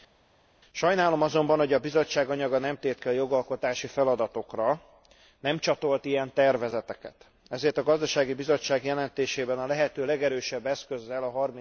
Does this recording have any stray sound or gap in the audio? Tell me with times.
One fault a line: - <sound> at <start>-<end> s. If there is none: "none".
none